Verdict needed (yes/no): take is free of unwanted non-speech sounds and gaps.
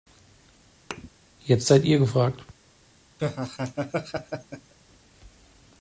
no